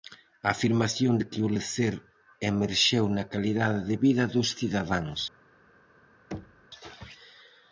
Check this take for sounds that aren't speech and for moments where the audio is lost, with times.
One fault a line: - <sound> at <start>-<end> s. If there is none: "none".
- thud at 6.3-6.7 s